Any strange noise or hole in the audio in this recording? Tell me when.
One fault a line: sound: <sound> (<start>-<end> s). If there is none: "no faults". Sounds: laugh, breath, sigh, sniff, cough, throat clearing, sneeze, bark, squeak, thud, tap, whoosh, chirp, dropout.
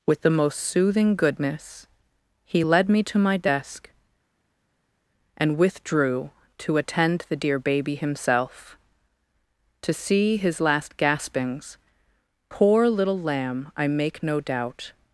no faults